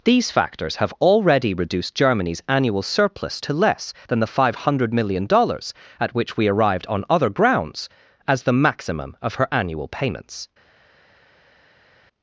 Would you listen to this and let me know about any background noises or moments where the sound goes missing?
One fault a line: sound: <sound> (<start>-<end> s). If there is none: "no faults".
no faults